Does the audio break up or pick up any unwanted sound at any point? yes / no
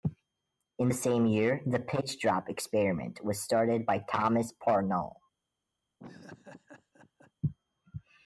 yes